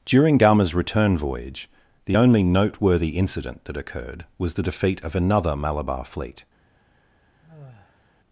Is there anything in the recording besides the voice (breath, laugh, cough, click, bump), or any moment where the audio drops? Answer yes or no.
yes